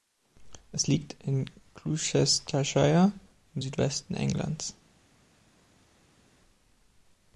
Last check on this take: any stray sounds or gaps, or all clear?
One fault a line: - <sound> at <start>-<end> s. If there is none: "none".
none